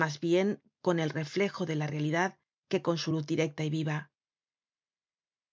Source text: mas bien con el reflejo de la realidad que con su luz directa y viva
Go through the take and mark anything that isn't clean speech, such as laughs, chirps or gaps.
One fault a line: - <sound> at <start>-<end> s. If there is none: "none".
none